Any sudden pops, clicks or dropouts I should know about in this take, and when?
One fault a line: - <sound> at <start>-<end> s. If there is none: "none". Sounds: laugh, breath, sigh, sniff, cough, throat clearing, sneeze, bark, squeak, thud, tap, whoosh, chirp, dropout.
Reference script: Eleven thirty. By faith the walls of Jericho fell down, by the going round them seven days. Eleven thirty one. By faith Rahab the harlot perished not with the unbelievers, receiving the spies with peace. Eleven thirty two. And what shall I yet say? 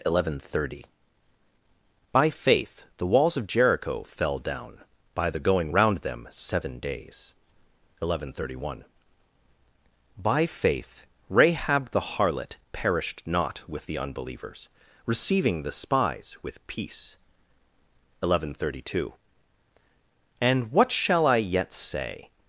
none